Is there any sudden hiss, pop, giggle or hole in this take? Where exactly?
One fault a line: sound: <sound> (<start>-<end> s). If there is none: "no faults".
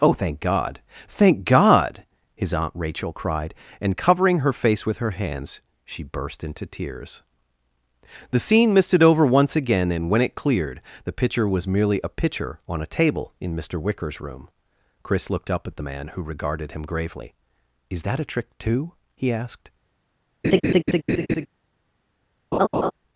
sound: laugh (20.4-21.5 s)
sound: laugh (22.5-22.9 s)